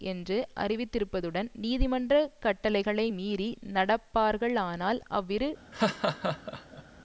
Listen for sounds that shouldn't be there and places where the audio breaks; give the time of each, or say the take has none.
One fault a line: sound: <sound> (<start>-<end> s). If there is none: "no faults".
sound: laugh (5.7-6.8 s)